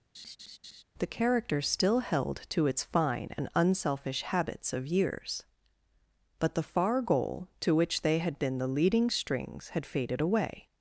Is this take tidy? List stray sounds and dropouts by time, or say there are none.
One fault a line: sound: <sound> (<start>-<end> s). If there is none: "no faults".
sound: laugh (0.1-0.8 s)